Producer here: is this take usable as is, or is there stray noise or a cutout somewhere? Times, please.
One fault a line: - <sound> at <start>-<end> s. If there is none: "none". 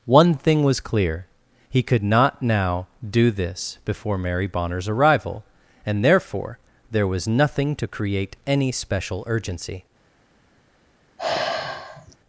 - sigh at 11.2-12.2 s